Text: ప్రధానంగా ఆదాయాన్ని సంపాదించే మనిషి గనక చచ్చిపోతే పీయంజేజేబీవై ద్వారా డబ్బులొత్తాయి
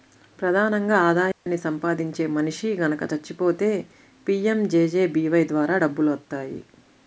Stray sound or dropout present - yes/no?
yes